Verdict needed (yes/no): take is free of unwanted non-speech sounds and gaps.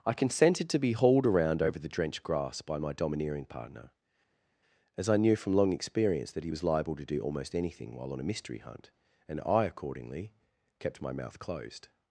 yes